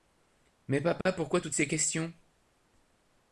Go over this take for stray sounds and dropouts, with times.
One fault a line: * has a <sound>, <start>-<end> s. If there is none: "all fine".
* has a dropout, 1.0-1.1 s